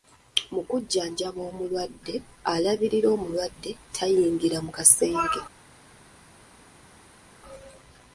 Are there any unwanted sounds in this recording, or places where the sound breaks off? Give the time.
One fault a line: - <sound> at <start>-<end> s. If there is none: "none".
none